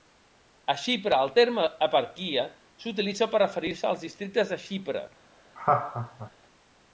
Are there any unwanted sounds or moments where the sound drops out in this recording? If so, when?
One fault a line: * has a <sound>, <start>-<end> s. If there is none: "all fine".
* has a laugh, 5.6-6.3 s